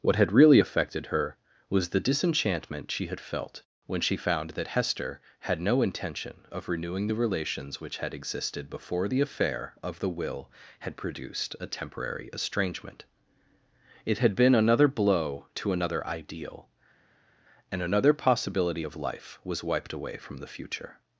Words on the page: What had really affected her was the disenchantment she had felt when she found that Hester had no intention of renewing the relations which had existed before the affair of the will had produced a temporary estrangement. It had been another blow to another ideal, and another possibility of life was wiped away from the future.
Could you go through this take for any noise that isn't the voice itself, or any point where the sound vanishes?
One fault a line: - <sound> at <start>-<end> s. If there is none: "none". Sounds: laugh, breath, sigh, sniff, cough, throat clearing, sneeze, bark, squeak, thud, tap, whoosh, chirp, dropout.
none